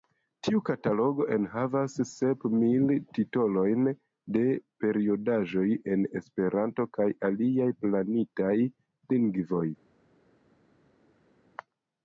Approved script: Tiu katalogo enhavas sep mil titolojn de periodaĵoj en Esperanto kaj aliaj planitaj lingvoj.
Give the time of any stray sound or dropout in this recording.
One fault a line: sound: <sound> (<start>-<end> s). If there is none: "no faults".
no faults